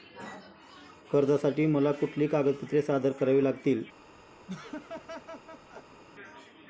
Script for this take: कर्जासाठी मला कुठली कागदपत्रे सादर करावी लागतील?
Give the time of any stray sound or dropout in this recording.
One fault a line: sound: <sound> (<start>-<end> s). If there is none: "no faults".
sound: laugh (4.5-6.0 s)